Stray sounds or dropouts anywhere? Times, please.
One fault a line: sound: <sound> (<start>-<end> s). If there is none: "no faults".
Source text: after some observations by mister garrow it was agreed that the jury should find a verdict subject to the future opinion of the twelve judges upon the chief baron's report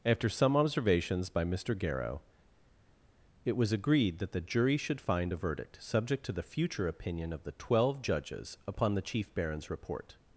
no faults